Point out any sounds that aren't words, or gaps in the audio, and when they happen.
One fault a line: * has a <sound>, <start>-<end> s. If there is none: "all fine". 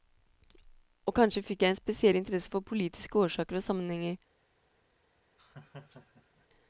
* has a laugh, 5.4-6.5 s